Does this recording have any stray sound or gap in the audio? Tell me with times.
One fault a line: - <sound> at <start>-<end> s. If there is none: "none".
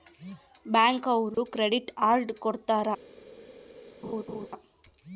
- dropout at 1.3-1.4 s
- laugh at 4.0-4.5 s